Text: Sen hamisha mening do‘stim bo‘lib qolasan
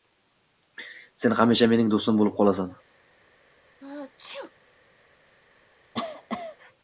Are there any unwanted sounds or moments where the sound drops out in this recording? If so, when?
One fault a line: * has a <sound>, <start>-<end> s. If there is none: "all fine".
* has a sneeze, 3.8-4.5 s
* has a cough, 5.9-6.6 s